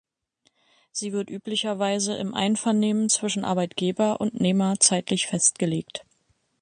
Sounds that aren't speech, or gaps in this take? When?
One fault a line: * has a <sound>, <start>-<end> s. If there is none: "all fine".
all fine